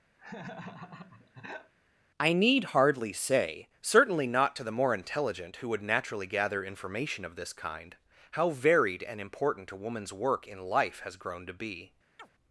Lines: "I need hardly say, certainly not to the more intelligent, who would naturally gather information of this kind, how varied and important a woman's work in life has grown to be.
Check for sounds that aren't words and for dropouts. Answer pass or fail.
fail